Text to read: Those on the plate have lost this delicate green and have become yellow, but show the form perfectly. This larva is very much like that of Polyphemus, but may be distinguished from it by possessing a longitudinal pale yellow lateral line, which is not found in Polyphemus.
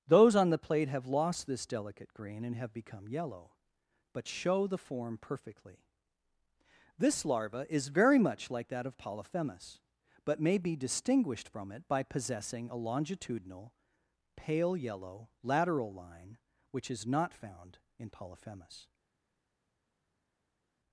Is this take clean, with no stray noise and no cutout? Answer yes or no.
yes